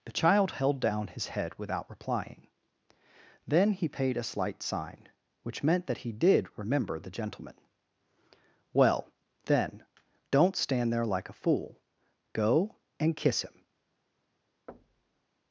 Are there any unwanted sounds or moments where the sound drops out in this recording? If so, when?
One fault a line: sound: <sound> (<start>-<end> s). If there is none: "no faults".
sound: thud (14.7-15.3 s)